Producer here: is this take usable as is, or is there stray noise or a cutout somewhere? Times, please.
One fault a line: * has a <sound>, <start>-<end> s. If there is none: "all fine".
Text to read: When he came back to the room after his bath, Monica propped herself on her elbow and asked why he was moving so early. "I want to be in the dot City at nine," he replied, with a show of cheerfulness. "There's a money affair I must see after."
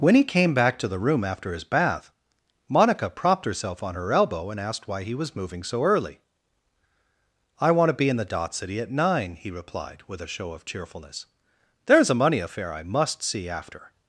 all fine